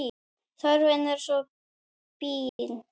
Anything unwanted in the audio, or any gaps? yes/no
yes